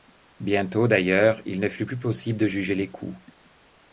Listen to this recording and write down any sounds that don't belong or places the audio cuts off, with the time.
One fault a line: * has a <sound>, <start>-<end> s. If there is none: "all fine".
all fine